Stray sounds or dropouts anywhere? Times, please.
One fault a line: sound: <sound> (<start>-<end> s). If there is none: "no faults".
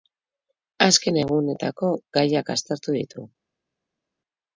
no faults